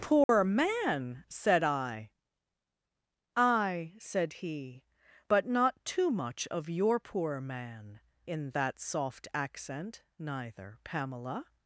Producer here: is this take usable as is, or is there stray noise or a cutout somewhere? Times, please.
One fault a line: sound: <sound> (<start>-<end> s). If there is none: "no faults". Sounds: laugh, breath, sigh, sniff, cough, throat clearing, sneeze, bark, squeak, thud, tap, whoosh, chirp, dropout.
sound: dropout (0.2-0.3 s)